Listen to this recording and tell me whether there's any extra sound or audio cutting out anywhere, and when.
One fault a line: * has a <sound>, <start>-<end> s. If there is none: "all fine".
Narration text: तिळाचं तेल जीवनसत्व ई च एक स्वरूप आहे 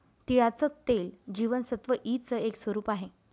all fine